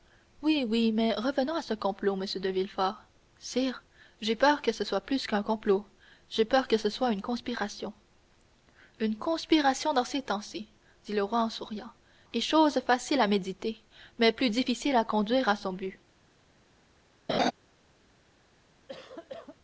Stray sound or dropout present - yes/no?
yes